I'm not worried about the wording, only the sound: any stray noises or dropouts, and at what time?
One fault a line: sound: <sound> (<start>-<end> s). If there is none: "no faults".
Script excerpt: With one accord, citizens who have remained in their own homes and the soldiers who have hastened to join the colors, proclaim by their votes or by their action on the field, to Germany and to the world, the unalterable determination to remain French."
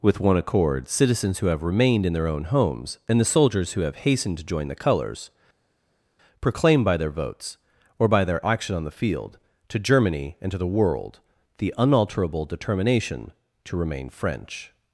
no faults